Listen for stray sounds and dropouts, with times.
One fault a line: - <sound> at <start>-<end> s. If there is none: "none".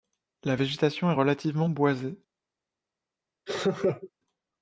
- laugh at 3.5-4.1 s